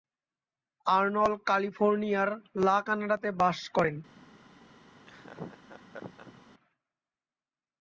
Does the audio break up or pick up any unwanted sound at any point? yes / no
yes